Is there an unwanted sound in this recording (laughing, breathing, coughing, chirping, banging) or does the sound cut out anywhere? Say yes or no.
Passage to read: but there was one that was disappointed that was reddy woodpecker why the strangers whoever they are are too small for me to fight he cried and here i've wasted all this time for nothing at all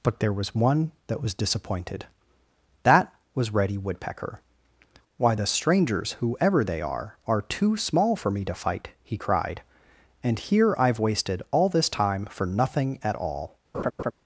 yes